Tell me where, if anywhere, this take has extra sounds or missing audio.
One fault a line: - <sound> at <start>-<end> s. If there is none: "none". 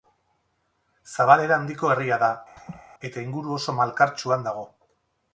- laugh at 2.6-2.8 s